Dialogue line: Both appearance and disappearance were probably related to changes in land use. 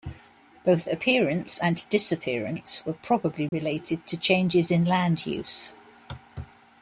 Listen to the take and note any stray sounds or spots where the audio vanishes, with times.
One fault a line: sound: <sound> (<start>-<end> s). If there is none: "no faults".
sound: dropout (3.5-3.5 s)